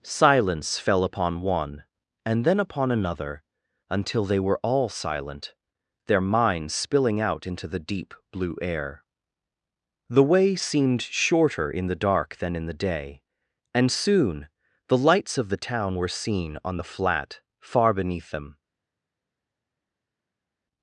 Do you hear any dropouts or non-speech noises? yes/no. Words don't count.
no